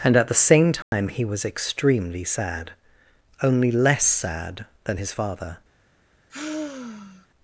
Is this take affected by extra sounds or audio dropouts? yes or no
yes